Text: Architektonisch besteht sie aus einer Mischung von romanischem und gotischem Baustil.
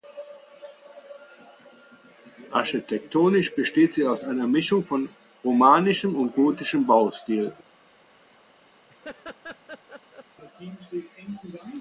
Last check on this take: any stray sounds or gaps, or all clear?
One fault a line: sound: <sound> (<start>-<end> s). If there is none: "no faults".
sound: laugh (8.9-10.3 s)